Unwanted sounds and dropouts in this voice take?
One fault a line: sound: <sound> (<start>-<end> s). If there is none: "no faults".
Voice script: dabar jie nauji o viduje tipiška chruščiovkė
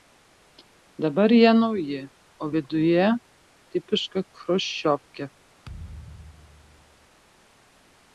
sound: thud (5.6-7.1 s)